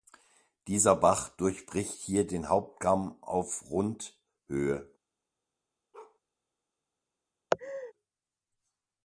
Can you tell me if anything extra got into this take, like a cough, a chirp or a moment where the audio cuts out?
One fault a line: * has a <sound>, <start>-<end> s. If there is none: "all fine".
* has a bark, 5.9-6.2 s
* has a laugh, 7.5-7.9 s